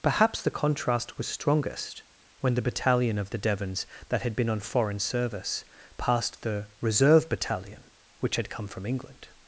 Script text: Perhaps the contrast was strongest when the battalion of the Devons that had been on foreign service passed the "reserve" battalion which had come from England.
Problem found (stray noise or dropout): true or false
false